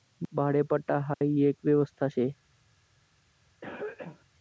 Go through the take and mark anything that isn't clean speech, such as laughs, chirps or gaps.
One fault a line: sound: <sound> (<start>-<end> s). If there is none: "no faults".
sound: dropout (1.1-1.2 s)
sound: cough (3.6-4.3 s)